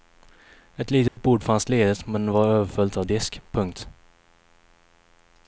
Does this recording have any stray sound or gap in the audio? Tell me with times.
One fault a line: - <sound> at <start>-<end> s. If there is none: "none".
- dropout at 1.1-1.2 s